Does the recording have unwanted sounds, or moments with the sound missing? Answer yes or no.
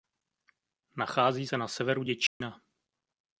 yes